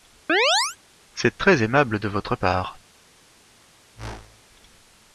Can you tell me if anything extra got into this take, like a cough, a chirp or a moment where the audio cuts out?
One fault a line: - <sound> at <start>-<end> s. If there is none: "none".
- chirp at 0.3-0.8 s
- whoosh at 3.9-4.4 s